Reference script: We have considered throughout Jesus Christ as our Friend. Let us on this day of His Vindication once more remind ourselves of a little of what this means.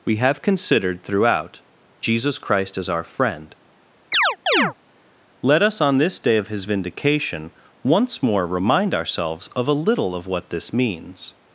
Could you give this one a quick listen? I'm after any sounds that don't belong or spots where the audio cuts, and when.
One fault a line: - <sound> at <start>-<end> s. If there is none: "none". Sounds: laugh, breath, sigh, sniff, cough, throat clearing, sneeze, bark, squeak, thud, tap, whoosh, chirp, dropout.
- chirp at 4.1-4.7 s